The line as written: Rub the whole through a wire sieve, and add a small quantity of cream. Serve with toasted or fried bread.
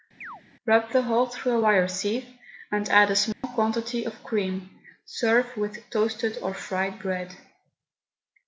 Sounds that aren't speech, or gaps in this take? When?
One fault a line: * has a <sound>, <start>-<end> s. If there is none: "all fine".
* has a chirp, 0.2-0.4 s
* has a dropout, 3.3-3.4 s